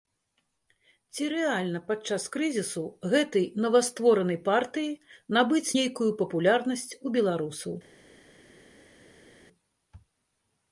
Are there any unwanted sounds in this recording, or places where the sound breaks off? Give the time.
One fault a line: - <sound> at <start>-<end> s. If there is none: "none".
none